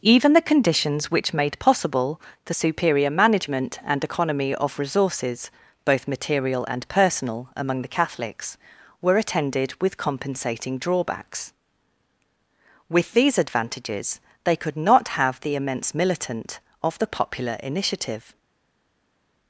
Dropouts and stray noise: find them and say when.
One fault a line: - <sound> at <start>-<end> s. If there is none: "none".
none